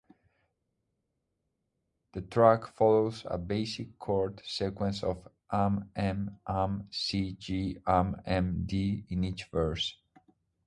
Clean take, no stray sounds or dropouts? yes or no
yes